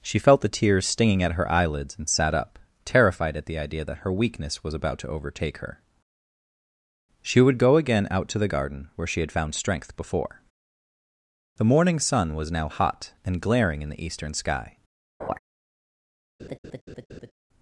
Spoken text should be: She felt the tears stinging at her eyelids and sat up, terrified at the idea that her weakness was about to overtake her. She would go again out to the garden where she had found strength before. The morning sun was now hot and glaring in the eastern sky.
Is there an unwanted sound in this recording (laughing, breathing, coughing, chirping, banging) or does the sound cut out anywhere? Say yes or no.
yes